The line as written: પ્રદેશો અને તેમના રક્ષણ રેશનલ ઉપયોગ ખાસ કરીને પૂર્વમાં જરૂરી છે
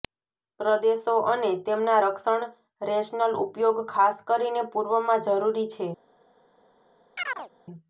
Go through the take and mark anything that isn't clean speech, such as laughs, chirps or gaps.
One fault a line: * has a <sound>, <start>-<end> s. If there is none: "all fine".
* has a chirp, 7.2-7.5 s